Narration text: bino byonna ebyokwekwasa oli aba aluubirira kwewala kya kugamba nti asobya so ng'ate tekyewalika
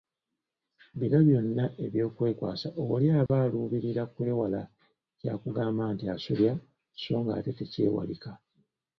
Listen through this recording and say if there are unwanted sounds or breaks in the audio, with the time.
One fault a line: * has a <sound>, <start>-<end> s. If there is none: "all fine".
* has a dropout, 3.3-3.3 s